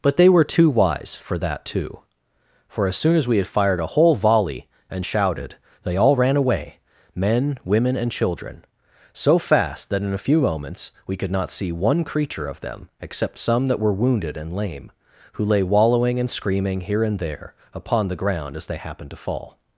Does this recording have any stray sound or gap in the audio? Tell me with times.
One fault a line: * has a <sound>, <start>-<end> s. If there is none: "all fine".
all fine